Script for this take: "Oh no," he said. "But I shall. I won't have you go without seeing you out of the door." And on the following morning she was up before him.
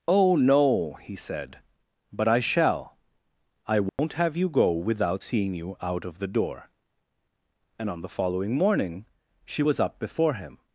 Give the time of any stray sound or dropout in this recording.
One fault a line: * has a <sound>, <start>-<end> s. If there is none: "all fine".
* has a dropout, 3.9-4.0 s